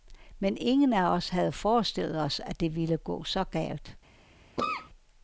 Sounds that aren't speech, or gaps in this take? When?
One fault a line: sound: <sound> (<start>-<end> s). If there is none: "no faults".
sound: cough (4.6-4.9 s)